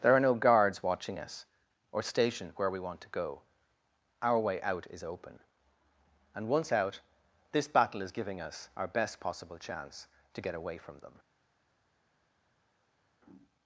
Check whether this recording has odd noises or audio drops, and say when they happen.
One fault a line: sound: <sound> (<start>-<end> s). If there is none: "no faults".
no faults